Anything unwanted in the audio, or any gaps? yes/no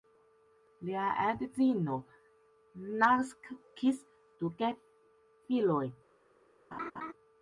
yes